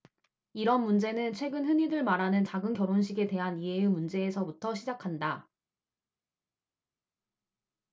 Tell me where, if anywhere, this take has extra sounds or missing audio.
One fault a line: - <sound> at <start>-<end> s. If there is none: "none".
none